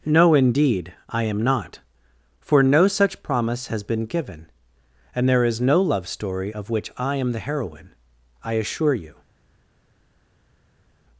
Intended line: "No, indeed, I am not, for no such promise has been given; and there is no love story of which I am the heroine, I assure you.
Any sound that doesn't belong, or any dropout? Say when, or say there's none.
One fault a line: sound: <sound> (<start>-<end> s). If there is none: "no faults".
no faults